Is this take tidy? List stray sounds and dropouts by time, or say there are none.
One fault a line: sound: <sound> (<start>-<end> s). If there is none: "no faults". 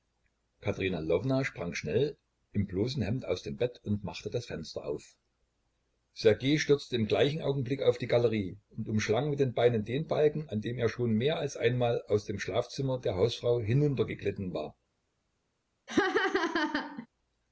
sound: laugh (15.9-17.1 s)